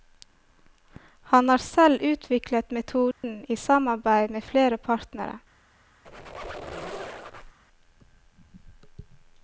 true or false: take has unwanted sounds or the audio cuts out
true